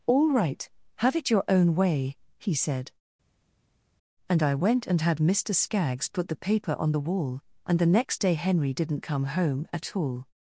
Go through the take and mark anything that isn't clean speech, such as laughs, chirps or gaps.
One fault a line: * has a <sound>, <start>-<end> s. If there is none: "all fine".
all fine